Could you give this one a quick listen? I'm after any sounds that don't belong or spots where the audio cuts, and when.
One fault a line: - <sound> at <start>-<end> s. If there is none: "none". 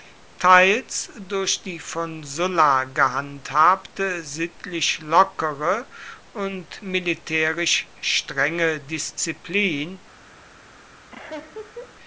- laugh at 11.1-11.9 s